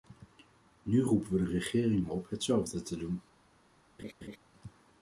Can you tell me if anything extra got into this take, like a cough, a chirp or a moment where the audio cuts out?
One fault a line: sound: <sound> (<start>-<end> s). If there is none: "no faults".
sound: laugh (4.0-4.4 s)